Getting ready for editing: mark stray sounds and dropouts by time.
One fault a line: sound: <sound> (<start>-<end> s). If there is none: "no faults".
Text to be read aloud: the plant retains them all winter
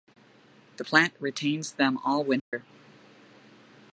sound: dropout (2.4-2.5 s)